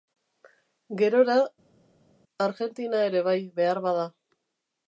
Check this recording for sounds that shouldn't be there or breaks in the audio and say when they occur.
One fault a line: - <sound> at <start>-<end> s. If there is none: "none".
none